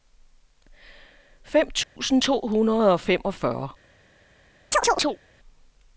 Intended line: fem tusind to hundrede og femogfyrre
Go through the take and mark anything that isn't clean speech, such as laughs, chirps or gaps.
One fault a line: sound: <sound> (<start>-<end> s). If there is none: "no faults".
sound: dropout (1.8-2.0 s)
sound: chirp (4.7-5.2 s)